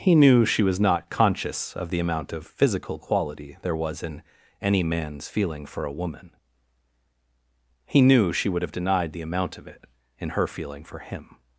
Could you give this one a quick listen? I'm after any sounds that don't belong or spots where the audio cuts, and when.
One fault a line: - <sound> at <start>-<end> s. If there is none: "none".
none